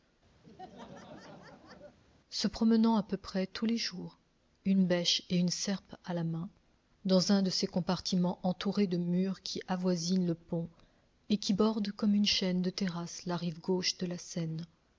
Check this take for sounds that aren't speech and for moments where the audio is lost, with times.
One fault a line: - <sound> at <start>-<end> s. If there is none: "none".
- laugh at 0.4-2.0 s